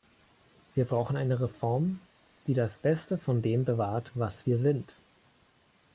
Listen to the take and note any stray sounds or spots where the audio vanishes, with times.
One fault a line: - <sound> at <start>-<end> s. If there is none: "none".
none